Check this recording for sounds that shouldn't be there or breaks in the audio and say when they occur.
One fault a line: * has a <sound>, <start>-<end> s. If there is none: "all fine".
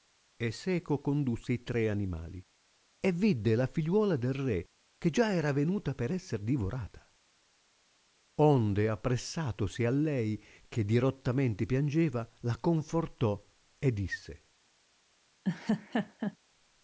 * has a laugh, 15.4-16.4 s